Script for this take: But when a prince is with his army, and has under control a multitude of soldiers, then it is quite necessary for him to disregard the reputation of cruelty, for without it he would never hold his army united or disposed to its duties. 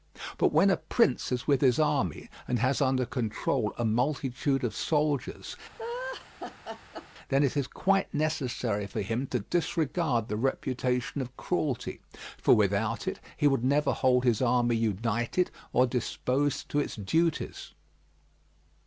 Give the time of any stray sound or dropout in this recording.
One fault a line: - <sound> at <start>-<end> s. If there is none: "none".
- laugh at 5.8-7.1 s